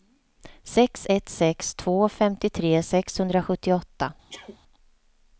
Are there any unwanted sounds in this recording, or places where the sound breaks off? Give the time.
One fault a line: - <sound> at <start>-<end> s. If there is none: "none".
- sneeze at 4.3-4.6 s